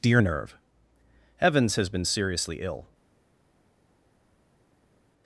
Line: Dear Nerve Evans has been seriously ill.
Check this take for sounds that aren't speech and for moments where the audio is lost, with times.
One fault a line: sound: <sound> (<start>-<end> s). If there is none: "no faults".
no faults